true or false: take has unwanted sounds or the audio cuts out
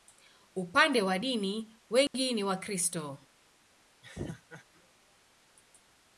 true